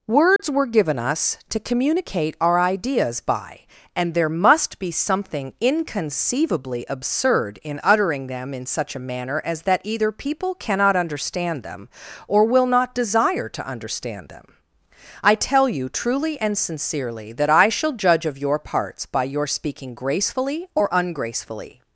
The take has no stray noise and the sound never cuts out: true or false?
false